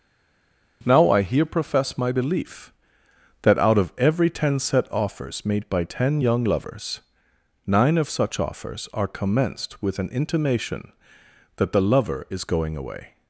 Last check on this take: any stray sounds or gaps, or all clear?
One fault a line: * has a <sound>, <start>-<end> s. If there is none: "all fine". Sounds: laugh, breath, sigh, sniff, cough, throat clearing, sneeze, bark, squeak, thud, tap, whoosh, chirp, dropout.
all fine